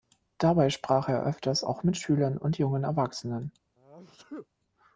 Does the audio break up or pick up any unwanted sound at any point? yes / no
yes